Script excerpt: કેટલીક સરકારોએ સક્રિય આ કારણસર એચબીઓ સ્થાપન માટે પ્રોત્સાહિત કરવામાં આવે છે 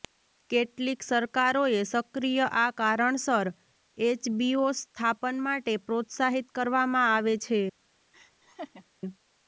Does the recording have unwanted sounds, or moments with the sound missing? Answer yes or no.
yes